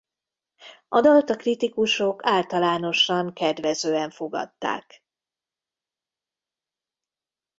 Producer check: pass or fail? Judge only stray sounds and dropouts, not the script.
pass